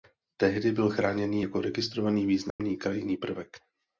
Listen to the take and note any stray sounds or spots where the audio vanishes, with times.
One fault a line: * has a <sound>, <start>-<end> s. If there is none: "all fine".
* has a dropout, 2.5-2.6 s